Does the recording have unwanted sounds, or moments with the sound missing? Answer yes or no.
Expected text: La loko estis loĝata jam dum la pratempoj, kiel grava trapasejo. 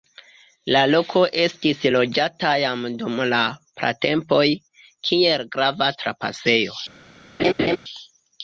yes